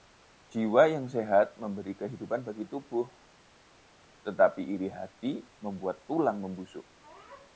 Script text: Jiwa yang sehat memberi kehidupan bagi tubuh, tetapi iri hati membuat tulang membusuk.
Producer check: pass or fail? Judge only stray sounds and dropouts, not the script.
pass